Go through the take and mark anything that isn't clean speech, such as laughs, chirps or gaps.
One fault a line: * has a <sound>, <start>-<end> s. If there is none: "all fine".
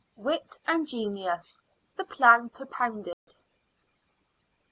* has a dropout, 3.1-3.3 s